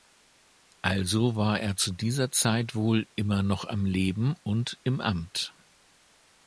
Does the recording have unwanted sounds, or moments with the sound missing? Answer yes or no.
no